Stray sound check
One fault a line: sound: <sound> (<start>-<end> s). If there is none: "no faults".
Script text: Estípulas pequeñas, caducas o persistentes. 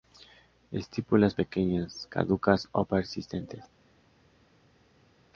no faults